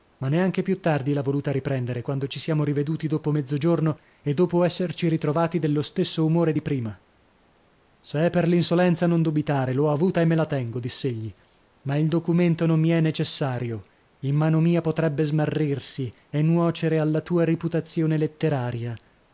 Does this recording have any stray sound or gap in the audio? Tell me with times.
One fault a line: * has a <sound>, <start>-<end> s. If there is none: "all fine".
all fine